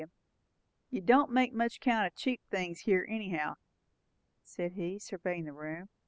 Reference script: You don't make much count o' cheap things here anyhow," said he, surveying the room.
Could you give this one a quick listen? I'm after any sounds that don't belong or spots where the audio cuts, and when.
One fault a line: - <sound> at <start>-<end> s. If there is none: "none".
none